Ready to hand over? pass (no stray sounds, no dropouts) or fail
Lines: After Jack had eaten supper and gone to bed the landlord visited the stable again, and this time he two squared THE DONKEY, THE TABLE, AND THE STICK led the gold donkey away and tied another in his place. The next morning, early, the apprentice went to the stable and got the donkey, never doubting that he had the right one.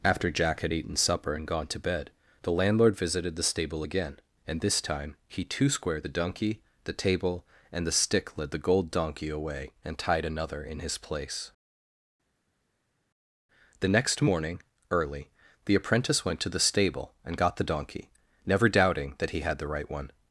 pass